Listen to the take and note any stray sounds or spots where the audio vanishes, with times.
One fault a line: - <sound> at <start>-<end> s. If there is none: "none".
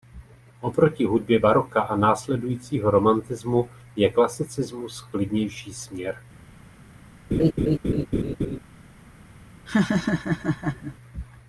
- laugh at 7.3-8.6 s
- laugh at 9.7-11.0 s